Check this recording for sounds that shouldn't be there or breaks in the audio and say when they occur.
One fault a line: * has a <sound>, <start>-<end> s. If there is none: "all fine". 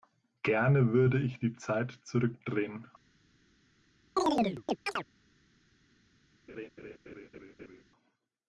* has a chirp, 4.2-5.0 s
* has a laugh, 6.5-7.8 s